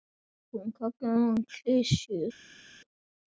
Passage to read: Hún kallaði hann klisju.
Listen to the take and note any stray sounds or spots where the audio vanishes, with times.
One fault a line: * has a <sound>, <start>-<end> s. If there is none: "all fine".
all fine